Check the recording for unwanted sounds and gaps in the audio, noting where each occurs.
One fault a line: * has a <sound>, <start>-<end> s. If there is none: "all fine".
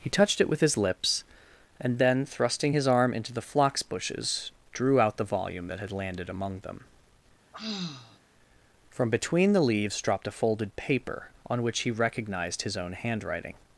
* has a sigh, 7.5-8.2 s